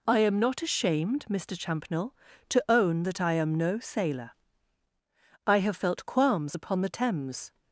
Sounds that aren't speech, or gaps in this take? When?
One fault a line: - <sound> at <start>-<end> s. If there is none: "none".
none